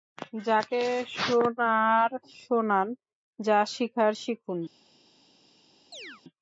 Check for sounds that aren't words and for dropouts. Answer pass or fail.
fail